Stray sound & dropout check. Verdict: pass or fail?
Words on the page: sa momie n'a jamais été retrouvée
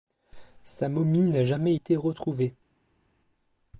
pass